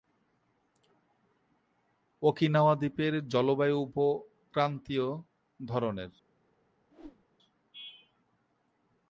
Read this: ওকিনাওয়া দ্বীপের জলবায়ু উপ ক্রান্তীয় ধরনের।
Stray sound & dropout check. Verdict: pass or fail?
fail